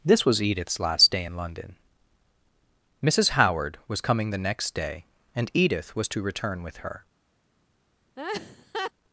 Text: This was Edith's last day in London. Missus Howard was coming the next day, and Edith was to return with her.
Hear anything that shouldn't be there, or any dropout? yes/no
yes